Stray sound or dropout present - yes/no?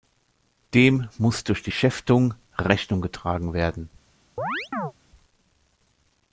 yes